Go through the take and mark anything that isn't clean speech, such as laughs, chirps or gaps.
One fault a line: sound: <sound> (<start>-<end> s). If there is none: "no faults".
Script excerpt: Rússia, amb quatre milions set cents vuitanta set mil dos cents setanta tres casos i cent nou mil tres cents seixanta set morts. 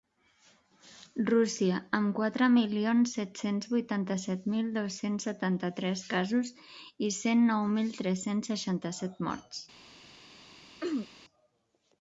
sound: throat clearing (10.8-11.1 s)